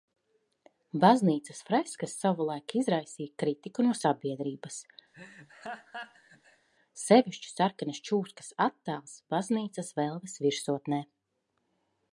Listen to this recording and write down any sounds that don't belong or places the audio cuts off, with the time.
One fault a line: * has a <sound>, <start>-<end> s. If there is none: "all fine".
* has a laugh, 5.1-6.7 s